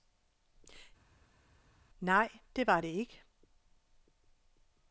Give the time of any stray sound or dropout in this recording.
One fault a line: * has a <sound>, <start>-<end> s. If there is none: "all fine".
all fine